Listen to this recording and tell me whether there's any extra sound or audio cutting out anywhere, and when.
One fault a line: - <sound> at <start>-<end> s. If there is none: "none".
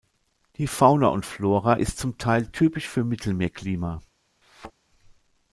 - thud at 4.4-4.7 s